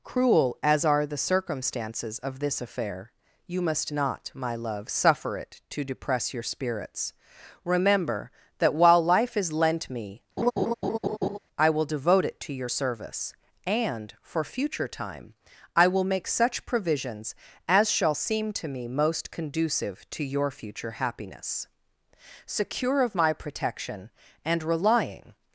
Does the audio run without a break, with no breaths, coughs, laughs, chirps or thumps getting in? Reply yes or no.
no